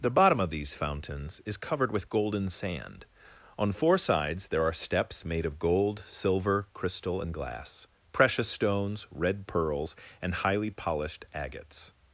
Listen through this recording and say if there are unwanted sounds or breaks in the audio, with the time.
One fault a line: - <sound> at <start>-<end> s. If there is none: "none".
none